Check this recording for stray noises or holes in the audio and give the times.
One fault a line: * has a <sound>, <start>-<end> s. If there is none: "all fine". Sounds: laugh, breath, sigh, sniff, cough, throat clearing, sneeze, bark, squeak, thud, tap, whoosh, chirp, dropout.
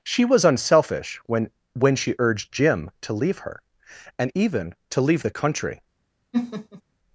* has a laugh, 6.3-6.8 s